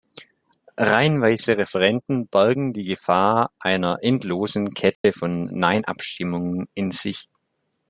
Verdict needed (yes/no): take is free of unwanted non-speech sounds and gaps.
no